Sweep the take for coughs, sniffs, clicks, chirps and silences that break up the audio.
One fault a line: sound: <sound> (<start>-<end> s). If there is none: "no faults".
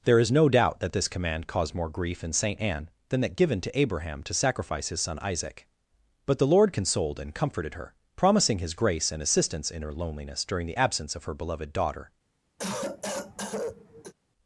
sound: cough (12.6-14.1 s)